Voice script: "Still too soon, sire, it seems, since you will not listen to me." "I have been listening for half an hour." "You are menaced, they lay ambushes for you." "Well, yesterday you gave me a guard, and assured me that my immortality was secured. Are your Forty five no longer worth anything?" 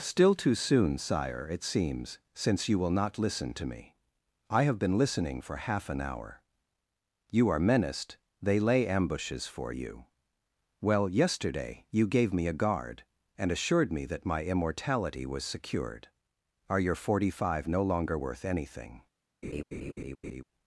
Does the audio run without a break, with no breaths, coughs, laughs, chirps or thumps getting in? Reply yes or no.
no